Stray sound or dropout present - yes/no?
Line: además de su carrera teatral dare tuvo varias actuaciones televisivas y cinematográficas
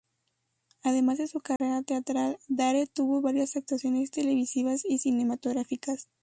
yes